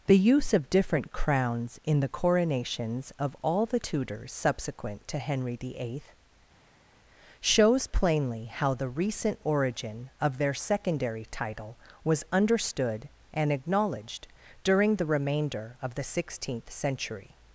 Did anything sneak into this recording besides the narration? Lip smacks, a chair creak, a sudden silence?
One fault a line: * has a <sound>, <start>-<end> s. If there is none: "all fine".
all fine